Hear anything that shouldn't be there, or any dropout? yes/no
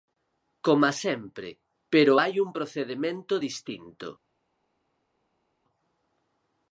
no